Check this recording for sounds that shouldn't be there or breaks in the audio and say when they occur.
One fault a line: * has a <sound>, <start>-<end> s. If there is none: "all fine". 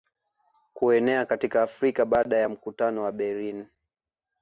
all fine